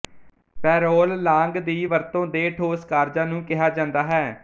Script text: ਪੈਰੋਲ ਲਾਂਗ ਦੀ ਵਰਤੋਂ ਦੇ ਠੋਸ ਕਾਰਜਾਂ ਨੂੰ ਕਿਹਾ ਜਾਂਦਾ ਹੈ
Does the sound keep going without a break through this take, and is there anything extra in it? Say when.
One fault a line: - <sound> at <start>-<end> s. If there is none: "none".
none